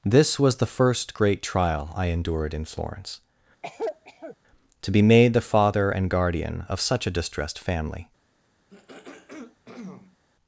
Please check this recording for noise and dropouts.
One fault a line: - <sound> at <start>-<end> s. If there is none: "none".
- cough at 3.6-4.4 s
- throat clearing at 8.7-10.2 s